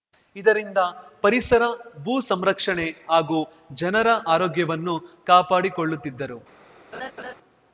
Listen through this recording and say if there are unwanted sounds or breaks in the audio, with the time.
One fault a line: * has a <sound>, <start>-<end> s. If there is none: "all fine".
* has a laugh, 6.9-7.3 s